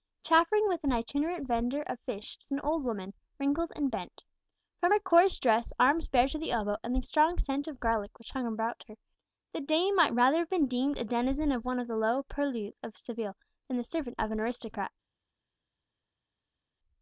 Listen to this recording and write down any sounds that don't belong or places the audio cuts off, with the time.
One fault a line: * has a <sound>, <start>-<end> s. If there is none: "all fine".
all fine